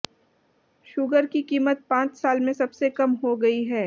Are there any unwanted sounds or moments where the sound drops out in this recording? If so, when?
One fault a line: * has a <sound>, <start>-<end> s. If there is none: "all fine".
all fine